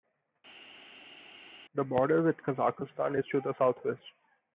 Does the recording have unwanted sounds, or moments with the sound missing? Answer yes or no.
no